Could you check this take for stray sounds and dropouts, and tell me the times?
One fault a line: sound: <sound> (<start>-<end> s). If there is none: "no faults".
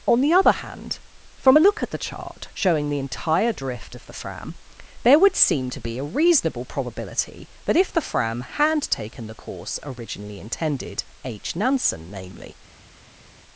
no faults